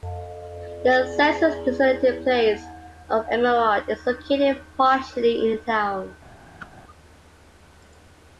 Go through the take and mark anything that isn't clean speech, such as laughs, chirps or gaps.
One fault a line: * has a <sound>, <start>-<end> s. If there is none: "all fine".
* has a whoosh, 6.6-6.7 s